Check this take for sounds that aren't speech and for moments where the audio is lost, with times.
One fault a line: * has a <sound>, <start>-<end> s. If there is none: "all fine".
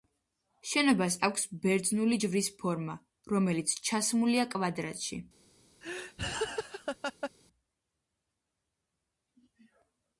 * has a laugh, 5.8-7.3 s